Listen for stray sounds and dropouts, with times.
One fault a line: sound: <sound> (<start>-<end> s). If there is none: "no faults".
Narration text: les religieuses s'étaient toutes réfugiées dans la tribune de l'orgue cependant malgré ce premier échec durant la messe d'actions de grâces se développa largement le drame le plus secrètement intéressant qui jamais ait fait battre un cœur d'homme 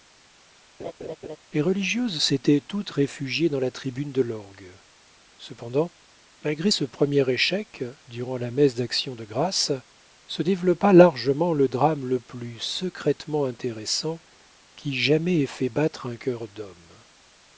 sound: laugh (0.8-1.4 s)